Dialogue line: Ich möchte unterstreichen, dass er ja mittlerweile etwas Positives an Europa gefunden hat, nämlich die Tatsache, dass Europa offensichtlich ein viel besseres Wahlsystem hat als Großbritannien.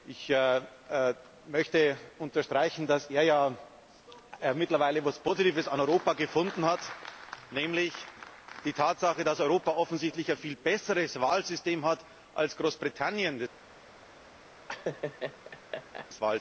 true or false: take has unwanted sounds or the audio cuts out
true